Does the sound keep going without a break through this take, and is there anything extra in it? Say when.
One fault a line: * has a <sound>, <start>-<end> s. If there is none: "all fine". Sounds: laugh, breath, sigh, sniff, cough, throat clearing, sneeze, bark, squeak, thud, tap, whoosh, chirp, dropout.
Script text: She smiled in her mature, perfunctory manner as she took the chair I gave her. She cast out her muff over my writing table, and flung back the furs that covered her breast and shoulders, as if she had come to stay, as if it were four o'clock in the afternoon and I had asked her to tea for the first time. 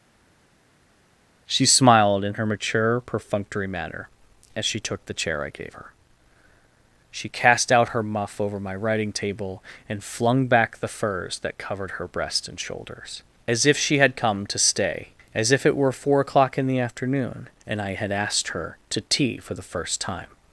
all fine